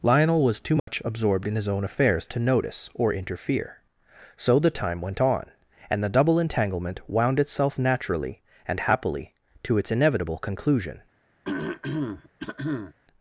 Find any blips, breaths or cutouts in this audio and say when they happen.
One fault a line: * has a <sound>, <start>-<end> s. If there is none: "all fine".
* has a dropout, 0.8-0.9 s
* has a throat clearing, 11.4-12.9 s